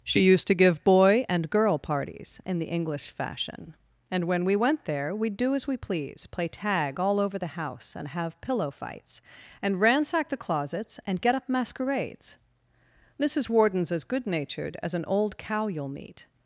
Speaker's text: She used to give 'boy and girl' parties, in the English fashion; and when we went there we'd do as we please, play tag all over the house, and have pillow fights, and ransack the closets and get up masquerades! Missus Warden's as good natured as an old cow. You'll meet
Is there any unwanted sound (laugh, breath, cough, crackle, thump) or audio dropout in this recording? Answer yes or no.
no